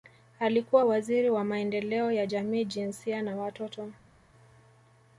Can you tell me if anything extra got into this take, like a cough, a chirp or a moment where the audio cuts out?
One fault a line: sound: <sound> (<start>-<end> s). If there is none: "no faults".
no faults